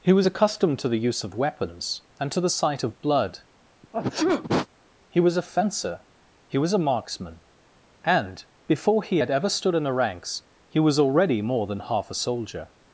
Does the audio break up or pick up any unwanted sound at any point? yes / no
yes